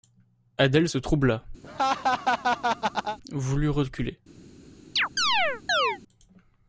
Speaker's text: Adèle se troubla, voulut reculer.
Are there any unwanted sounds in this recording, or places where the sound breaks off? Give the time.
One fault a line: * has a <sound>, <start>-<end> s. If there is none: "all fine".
* has a laugh, 1.6-3.2 s
* has a chirp, 5.0-6.0 s